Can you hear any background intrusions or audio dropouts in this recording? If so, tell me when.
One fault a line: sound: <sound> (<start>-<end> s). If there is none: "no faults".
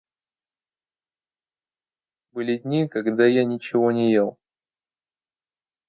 no faults